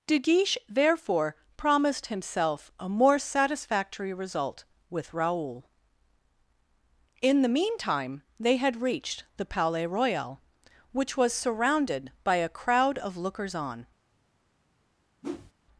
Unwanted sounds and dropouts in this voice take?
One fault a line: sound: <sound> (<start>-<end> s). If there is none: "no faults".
sound: whoosh (15.2-15.5 s)